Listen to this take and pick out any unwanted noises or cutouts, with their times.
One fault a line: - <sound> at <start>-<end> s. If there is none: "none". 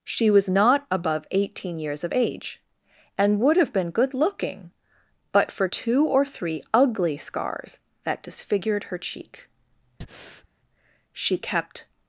- breath at 10.0-10.5 s